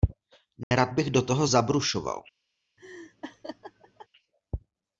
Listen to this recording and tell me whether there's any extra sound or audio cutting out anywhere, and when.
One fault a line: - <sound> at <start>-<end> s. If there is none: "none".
- dropout at 0.6-0.7 s
- laugh at 2.8-4.1 s